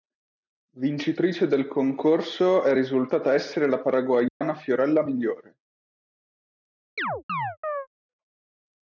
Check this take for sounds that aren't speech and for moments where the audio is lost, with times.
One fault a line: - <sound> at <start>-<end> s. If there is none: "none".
- dropout at 4.3-4.4 s
- chirp at 7.0-7.9 s